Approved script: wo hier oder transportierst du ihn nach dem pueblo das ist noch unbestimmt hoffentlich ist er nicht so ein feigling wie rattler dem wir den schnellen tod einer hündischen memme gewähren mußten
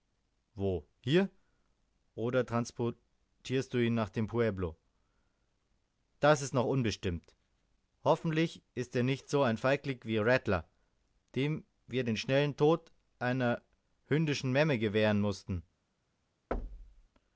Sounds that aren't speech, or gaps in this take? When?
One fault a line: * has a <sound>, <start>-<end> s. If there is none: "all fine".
* has a thud, 16.5-17.1 s